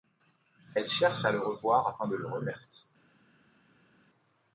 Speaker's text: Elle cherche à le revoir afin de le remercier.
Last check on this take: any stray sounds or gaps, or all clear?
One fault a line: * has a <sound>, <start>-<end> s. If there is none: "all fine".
all fine